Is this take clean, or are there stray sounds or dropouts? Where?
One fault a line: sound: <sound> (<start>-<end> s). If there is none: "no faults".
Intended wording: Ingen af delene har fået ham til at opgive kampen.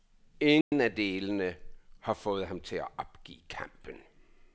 sound: dropout (0.6-0.7 s)